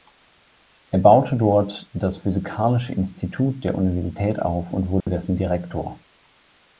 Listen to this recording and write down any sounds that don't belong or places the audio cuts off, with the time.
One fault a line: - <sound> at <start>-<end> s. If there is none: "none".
- dropout at 5.0-5.1 s